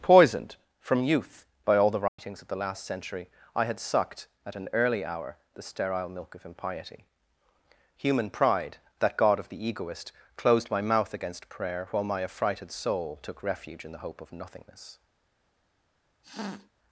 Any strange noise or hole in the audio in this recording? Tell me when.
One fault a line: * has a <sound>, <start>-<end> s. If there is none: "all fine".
* has a dropout, 2.1-2.2 s
* has a sniff, 16.2-16.7 s